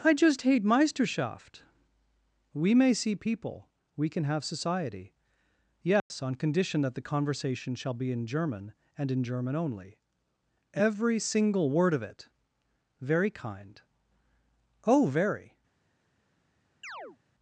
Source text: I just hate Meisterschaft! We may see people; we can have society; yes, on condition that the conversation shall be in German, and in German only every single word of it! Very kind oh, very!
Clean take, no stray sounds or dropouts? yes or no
no